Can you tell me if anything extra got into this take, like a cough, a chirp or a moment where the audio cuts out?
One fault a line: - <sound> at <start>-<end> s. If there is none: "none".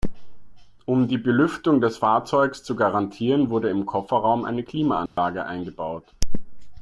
- dropout at 5.1-5.2 s